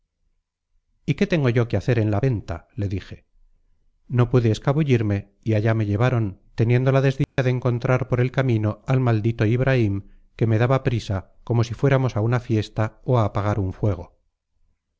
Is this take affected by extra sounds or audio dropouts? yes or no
yes